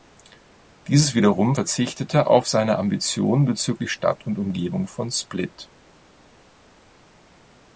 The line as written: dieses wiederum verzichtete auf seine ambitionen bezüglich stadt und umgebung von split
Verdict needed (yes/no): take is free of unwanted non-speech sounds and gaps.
yes